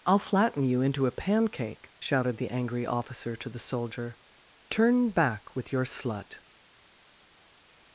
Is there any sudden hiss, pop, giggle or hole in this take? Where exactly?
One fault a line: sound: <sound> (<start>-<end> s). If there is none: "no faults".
no faults